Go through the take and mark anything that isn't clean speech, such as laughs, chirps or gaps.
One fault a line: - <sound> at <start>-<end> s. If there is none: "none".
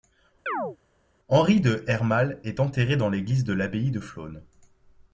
- chirp at 0.5-0.8 s